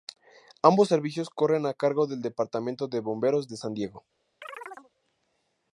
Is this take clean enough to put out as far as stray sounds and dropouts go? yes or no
no